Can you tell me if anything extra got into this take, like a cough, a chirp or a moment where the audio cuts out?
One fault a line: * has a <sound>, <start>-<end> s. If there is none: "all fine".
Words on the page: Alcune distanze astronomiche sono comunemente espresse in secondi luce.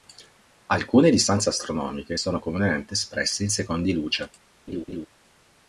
* has a laugh, 4.7-5.1 s